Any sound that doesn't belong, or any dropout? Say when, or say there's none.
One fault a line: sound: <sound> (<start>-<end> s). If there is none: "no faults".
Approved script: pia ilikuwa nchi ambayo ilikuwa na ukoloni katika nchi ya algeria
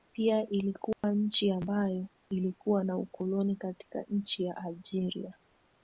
sound: dropout (0.9-1.0 s)